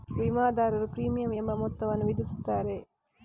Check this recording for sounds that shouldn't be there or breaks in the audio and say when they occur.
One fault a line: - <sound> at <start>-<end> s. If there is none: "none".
none